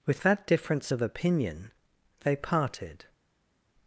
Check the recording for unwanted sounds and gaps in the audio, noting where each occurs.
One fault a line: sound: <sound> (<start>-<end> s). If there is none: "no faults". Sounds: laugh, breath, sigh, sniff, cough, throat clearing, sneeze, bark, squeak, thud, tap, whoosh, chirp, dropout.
no faults